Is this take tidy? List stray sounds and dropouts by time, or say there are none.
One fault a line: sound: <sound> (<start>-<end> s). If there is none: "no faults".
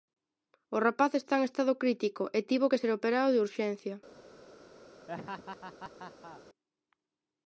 sound: laugh (5.1-6.4 s)